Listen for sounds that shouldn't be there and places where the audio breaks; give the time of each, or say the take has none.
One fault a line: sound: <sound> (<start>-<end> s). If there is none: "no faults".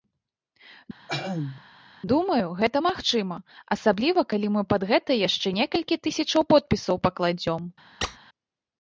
sound: throat clearing (1.1-1.6 s)
sound: squeak (8.0-8.2 s)